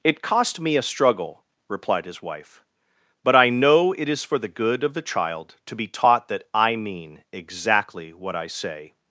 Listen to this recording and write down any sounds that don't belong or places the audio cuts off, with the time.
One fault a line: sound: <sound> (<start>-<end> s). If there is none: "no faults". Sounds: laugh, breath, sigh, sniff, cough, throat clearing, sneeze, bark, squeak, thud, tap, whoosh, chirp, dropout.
no faults